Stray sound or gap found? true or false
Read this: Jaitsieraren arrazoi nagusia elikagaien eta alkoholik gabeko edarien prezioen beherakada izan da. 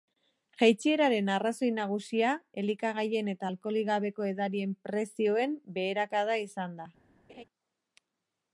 true